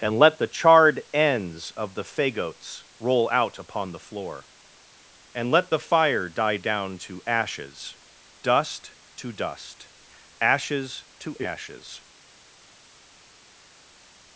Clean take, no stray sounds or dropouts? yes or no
yes